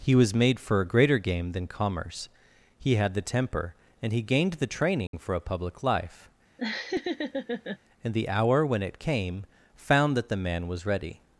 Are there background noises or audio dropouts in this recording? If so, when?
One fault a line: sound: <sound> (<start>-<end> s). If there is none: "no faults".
sound: dropout (5.1-5.1 s)
sound: laugh (6.6-7.8 s)